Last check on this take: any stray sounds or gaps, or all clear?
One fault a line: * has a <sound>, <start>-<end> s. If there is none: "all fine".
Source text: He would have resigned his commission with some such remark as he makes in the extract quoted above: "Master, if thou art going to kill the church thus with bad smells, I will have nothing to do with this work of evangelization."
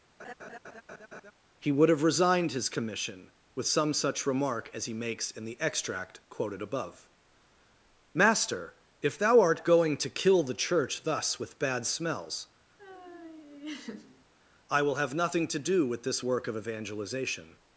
* has a laugh, 0.2-1.3 s
* has a laugh, 12.8-14.3 s